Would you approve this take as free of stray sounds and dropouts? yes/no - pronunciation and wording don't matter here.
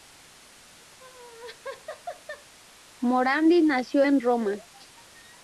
no